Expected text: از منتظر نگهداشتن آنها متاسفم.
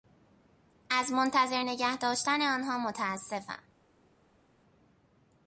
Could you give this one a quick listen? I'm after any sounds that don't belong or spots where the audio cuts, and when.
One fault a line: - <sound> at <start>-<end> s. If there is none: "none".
none